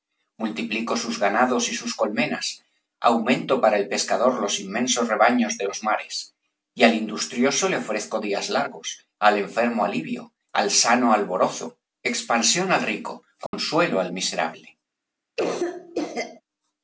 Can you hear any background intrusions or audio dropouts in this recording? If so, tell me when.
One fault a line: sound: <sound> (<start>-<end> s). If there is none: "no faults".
sound: dropout (13.5-13.5 s)
sound: cough (15.4-16.4 s)